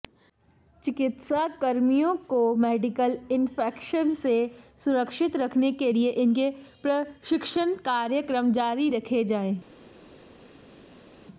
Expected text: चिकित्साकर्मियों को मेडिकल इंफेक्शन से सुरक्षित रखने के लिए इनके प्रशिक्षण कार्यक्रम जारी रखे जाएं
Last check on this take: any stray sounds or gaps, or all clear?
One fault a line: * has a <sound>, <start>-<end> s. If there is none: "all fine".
all fine